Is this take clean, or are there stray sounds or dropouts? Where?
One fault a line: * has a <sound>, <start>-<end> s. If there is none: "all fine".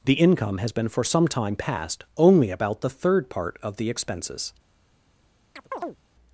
* has a chirp, 5.6-6.0 s